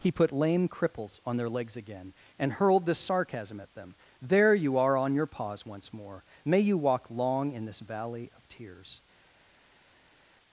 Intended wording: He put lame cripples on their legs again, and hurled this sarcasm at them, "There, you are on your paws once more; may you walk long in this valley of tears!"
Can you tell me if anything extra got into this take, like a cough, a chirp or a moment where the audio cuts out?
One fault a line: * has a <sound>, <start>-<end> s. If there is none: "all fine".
all fine